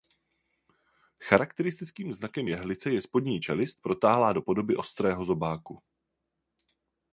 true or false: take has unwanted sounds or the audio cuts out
false